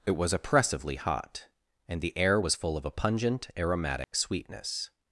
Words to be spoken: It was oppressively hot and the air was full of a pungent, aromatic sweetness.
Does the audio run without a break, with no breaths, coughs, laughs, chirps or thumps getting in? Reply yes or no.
no